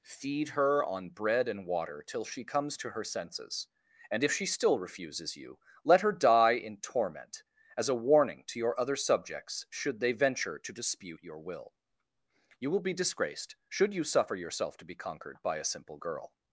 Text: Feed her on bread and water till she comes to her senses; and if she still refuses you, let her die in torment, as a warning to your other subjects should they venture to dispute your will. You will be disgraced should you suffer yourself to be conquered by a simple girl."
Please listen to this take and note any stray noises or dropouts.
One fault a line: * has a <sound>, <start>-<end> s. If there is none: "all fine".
all fine